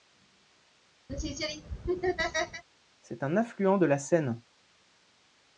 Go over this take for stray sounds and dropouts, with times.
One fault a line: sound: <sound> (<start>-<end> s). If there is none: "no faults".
sound: laugh (1.1-2.6 s)